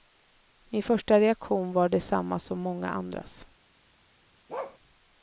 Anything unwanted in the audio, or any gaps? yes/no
yes